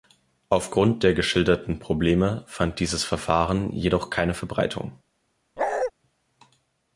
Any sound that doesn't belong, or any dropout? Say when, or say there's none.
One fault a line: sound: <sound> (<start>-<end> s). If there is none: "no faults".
sound: bark (5.6-5.9 s)